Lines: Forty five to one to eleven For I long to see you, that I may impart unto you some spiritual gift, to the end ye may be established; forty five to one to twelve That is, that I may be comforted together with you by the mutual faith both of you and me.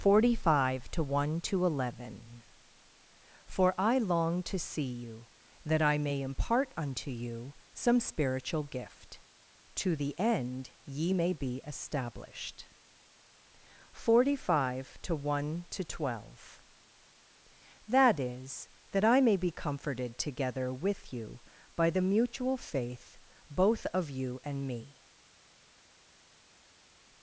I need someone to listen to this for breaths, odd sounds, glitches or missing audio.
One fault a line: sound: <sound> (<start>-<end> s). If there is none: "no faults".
no faults